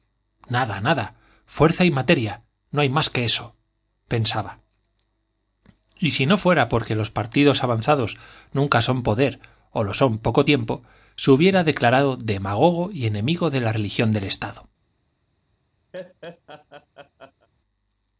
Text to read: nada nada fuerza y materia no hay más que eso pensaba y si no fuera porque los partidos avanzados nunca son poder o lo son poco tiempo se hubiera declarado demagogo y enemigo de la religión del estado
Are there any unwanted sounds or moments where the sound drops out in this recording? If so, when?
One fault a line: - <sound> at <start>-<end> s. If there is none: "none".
- laugh at 15.9-17.5 s